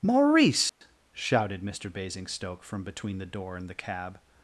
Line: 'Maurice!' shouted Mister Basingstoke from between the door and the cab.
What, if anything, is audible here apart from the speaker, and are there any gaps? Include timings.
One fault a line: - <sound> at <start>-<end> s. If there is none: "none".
- dropout at 0.7-0.8 s